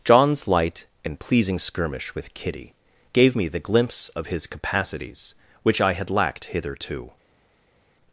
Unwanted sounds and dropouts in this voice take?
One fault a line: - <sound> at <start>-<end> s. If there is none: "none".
none